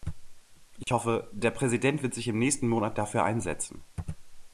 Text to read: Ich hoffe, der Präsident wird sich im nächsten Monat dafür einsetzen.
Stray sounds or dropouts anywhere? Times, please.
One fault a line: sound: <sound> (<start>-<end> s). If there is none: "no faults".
sound: dropout (0.8-0.9 s)